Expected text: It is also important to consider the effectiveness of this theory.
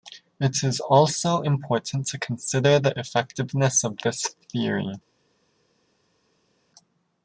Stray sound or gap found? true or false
false